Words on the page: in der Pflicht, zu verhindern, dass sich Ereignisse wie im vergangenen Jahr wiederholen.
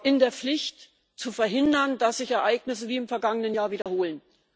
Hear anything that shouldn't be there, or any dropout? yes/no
yes